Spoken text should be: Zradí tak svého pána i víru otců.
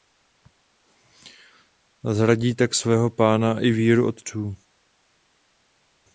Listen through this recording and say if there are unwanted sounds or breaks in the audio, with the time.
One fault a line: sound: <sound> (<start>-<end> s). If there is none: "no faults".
no faults